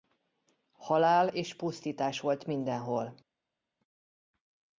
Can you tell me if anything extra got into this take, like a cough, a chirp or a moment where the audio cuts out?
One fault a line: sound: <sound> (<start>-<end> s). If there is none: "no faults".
no faults